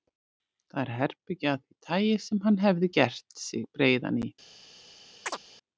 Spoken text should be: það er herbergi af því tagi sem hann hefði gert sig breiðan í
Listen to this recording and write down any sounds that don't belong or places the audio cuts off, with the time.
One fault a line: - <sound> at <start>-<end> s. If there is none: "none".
- chirp at 5.3-5.4 s